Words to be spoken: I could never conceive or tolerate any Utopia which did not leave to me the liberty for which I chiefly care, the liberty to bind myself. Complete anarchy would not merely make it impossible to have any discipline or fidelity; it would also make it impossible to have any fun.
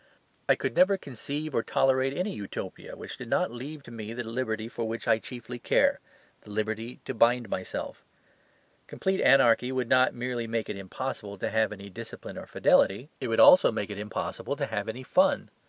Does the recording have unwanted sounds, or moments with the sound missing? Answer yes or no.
no